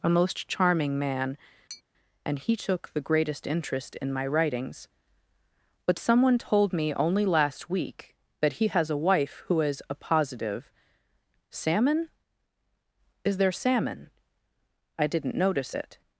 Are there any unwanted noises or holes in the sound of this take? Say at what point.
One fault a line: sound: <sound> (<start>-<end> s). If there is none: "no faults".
sound: tap (1.7-1.8 s)